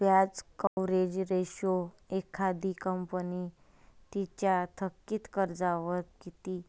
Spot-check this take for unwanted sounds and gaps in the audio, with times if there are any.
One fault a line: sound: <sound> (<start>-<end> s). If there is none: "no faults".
sound: dropout (0.7-0.8 s)